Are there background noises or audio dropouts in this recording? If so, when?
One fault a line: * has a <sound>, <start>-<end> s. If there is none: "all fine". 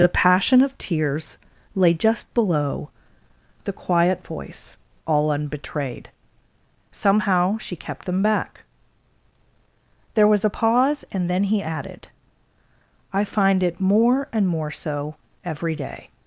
all fine